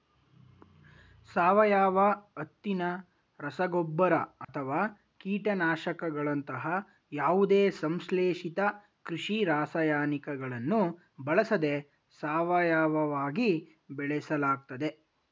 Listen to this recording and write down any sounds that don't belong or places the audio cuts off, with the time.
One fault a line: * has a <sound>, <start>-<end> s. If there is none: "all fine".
* has a dropout, 4.4-4.5 s